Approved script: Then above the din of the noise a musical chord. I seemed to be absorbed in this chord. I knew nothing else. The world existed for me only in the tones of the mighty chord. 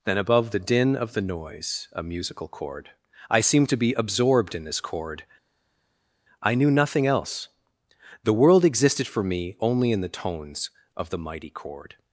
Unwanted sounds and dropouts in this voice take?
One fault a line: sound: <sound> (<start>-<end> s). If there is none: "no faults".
no faults